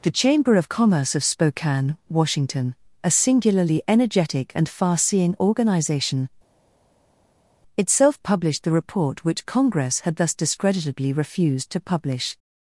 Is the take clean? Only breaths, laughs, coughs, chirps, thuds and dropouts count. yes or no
yes